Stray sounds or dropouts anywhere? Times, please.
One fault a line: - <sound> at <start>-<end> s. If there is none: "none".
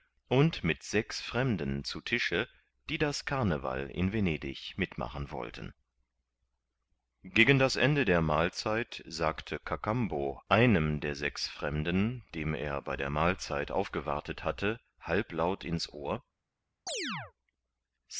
- chirp at 16.9-17.3 s